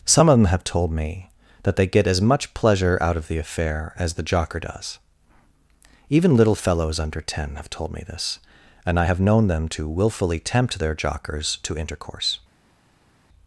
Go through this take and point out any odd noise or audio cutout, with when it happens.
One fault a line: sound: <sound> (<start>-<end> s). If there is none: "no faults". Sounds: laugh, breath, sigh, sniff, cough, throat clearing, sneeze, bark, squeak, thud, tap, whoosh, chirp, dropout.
no faults